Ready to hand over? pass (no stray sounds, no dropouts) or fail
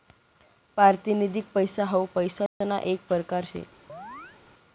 fail